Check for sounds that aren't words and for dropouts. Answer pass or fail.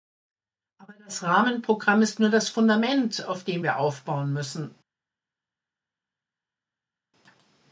pass